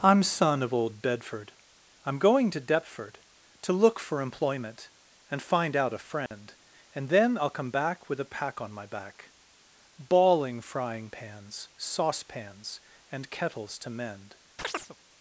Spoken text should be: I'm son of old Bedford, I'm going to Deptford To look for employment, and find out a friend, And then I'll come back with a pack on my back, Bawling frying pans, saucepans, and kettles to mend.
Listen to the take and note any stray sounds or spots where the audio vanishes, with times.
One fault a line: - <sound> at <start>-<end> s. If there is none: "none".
- dropout at 6.3-6.3 s
- chirp at 14.6-15.0 s